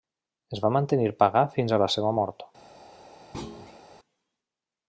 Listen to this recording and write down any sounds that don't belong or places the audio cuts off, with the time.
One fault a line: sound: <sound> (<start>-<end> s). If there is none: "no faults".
sound: thud (3.3-3.8 s)